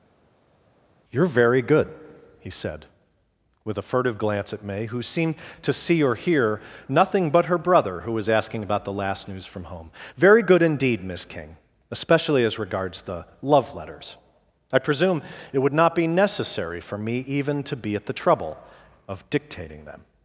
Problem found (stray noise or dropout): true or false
false